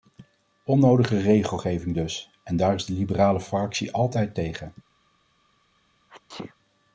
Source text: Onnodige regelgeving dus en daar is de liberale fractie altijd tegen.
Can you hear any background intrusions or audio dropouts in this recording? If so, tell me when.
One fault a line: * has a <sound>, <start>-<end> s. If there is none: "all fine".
* has a sneeze, 6.1-6.6 s